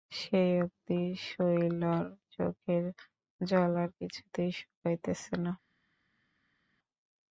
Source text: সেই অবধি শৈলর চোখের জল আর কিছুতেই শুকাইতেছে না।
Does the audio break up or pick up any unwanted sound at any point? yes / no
no